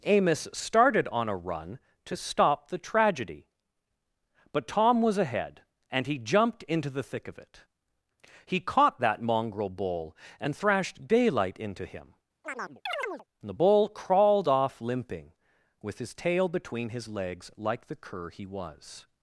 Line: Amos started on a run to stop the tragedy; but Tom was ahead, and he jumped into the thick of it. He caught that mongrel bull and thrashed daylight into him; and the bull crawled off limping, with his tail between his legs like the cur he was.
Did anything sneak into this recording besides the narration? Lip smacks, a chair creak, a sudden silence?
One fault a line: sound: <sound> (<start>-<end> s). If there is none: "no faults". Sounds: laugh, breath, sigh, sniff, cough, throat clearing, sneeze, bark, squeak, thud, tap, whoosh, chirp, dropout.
sound: chirp (12.4-13.3 s)